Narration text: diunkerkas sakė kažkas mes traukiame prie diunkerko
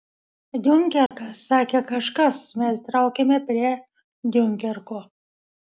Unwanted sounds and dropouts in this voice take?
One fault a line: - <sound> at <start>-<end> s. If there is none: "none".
- dropout at 1.1-1.1 s